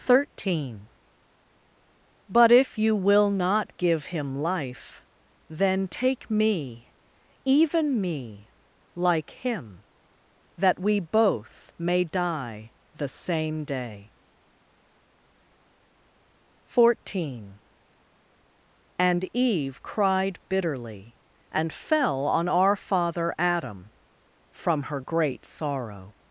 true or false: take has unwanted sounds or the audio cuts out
false